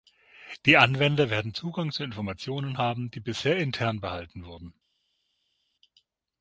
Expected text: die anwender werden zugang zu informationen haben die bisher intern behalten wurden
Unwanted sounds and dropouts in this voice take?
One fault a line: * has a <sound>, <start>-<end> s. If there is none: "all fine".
all fine